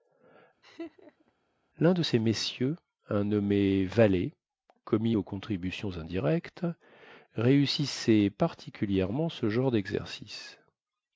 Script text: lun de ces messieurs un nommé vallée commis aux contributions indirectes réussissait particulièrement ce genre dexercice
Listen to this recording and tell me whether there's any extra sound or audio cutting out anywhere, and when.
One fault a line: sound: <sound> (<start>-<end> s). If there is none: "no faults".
sound: laugh (0.6-1.3 s)